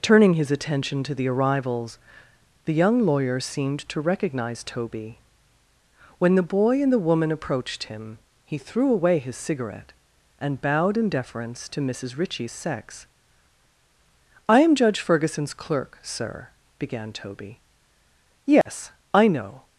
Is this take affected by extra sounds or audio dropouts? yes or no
yes